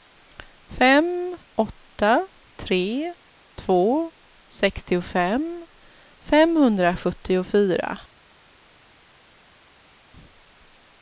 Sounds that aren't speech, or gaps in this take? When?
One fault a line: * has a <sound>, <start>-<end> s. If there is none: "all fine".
all fine